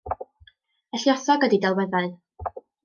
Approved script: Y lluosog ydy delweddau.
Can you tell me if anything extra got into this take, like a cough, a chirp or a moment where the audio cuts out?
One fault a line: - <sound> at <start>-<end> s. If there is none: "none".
none